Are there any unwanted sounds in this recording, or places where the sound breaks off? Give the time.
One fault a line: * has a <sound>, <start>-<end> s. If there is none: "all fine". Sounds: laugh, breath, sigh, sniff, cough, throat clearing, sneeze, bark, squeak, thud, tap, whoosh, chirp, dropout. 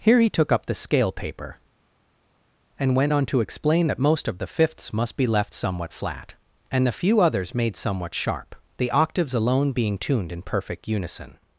all fine